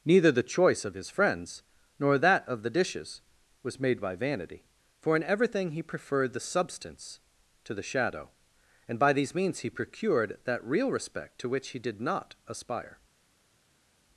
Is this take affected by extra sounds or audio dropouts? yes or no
no